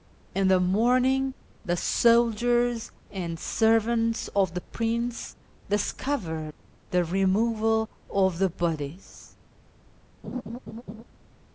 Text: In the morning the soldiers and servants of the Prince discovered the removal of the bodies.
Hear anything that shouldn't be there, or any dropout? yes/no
yes